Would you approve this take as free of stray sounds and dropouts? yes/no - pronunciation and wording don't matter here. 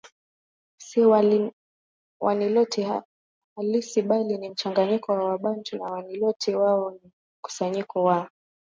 yes